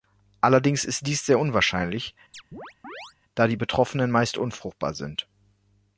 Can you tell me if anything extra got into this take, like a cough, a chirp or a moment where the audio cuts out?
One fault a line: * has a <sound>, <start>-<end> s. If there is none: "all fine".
* has a chirp, 2.3-3.1 s